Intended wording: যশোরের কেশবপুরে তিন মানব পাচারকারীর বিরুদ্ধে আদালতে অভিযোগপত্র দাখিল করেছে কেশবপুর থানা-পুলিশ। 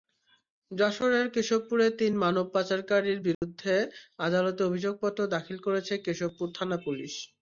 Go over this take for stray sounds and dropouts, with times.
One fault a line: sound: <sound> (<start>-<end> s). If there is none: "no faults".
sound: dropout (3.3-3.4 s)